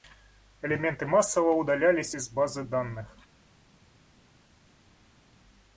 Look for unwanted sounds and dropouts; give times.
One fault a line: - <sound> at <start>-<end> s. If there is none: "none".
none